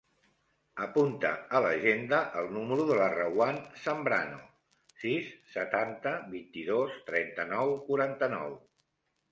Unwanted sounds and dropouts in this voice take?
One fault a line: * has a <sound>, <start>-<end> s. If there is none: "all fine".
all fine